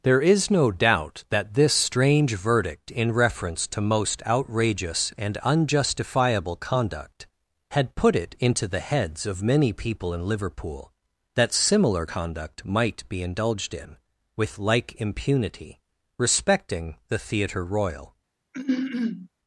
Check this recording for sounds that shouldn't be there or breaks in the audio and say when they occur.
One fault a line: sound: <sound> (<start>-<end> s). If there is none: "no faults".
sound: throat clearing (18.5-19.3 s)